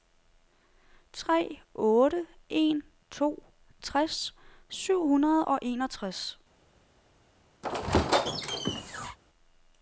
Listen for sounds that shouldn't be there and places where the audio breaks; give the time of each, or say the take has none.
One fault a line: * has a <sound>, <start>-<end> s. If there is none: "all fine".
* has a squeak, 7.6-9.2 s